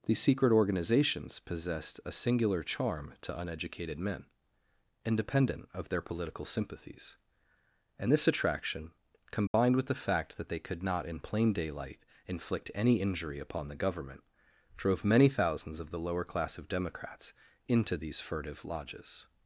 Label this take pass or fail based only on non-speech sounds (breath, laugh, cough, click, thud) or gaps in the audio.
fail